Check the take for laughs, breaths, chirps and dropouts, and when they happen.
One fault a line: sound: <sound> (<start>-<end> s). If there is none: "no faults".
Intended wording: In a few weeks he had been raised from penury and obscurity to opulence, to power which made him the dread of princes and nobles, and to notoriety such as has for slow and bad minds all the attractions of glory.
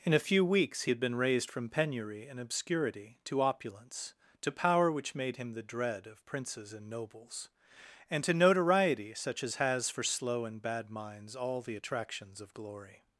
no faults